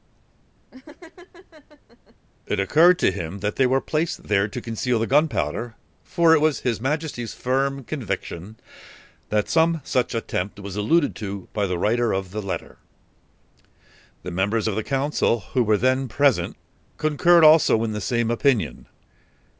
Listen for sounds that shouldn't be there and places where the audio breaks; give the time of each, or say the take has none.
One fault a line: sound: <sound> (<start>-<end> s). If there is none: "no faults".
sound: laugh (0.7-2.2 s)